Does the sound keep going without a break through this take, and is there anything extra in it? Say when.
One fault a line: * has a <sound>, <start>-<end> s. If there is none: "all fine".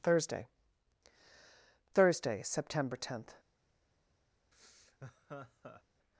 * has a laugh, 4.5-5.8 s